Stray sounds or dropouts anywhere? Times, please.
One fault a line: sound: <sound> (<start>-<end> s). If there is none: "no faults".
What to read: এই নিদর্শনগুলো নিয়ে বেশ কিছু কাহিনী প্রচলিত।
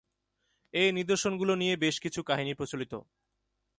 no faults